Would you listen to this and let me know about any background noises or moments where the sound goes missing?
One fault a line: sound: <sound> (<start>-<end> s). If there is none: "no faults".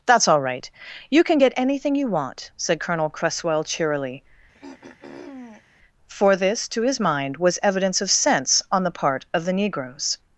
sound: throat clearing (4.5-5.6 s)